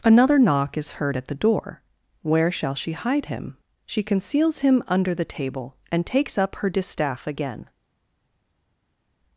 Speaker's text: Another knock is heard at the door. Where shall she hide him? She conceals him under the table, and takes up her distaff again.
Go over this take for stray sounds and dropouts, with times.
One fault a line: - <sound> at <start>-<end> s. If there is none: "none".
none